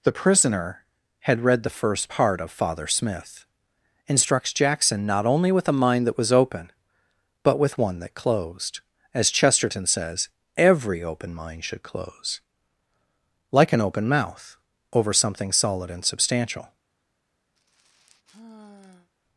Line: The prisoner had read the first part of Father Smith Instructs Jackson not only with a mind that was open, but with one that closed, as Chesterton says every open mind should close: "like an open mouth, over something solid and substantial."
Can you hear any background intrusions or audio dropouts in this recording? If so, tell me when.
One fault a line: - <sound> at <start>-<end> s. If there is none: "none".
- sigh at 17.6-19.1 s